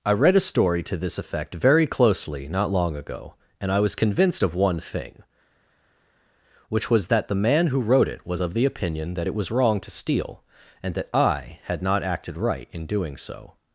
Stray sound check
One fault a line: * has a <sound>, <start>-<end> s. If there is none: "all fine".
all fine